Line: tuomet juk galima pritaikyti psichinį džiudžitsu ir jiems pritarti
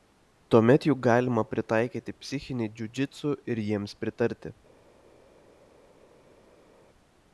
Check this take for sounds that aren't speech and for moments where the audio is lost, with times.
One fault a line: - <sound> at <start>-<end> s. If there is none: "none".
none